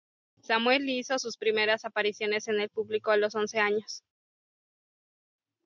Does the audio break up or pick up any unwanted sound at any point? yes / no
no